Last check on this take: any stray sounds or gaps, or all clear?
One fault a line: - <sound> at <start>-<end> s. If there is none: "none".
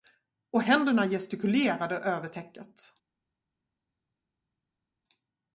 none